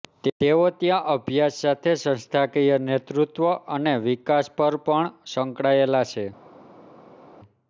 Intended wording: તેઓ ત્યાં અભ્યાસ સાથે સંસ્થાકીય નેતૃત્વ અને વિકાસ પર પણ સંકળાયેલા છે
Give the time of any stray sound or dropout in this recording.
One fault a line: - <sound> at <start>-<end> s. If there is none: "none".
none